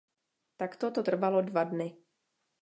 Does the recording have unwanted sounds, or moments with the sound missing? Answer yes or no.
no